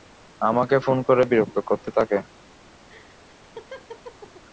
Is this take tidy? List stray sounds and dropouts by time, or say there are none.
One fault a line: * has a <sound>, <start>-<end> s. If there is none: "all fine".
* has a laugh, 2.9-4.4 s